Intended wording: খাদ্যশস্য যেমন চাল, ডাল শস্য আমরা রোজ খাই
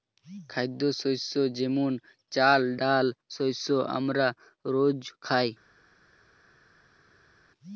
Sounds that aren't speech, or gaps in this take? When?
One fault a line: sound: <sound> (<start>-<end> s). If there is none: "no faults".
no faults